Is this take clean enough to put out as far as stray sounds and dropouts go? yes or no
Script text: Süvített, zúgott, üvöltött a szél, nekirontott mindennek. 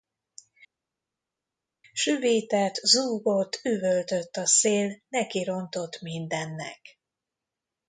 yes